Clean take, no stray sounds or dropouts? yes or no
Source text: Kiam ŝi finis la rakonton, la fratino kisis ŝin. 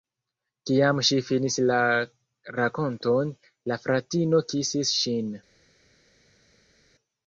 yes